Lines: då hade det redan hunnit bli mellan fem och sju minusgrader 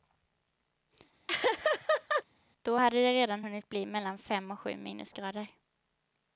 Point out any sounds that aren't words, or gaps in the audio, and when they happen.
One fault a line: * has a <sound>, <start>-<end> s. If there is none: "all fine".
* has a laugh, 1.3-2.2 s